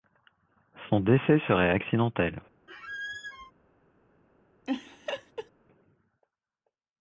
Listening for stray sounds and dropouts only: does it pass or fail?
fail